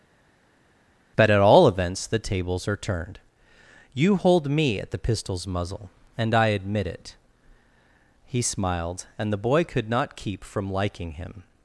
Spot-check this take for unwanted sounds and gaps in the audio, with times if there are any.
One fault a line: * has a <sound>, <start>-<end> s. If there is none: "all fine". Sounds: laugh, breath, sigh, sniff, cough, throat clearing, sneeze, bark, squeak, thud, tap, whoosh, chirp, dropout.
all fine